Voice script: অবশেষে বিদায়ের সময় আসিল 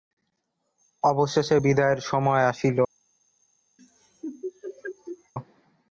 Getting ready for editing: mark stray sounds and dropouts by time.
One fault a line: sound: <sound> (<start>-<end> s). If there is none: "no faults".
sound: laugh (3.8-5.3 s)